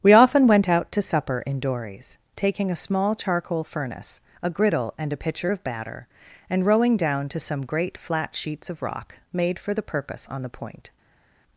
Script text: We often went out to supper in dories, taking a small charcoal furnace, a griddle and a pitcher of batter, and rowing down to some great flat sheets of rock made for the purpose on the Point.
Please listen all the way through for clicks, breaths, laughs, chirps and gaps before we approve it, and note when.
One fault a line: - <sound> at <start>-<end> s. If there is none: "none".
none